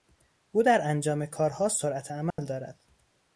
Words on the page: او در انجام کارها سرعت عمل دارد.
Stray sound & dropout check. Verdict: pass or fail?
fail